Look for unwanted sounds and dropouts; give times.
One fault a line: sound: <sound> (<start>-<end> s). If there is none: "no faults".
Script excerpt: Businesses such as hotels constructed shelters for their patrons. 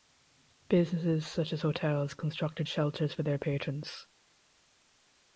no faults